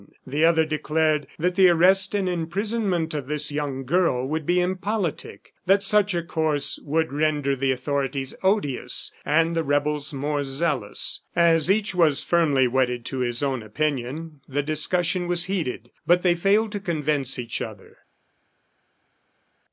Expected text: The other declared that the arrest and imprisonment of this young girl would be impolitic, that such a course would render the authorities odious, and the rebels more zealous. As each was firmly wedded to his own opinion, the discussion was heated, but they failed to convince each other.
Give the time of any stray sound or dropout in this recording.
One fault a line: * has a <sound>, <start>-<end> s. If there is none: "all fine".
all fine